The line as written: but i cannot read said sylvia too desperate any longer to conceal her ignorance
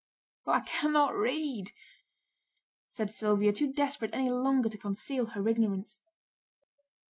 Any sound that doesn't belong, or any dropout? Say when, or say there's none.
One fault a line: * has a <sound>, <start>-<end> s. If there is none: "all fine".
all fine